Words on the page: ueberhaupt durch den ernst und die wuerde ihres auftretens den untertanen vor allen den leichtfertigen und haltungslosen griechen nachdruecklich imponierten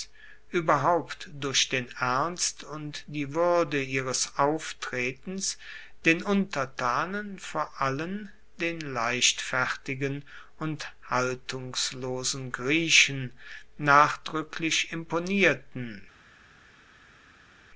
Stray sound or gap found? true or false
false